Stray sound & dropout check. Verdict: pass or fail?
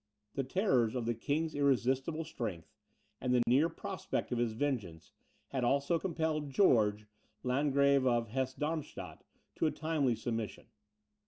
fail